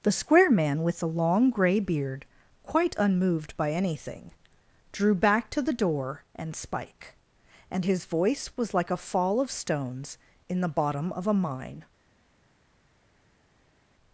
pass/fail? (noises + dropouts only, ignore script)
pass